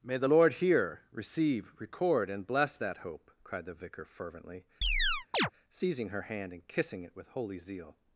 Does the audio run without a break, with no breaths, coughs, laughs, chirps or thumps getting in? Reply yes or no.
no